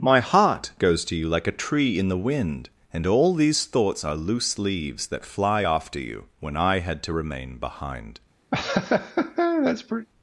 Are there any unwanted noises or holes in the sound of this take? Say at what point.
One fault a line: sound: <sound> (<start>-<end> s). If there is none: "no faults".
sound: laugh (8.5-10.1 s)